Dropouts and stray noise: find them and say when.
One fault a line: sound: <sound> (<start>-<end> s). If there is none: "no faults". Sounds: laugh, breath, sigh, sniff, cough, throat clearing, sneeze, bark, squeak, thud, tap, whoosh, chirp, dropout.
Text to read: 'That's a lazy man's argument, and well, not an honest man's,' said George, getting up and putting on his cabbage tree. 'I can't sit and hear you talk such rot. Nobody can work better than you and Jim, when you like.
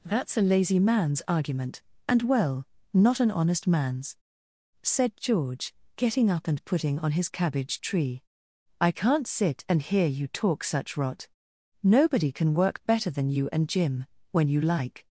no faults